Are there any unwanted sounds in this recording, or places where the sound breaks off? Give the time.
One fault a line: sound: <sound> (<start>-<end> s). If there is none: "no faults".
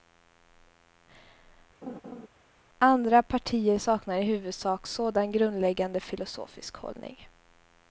sound: laugh (1.8-2.3 s)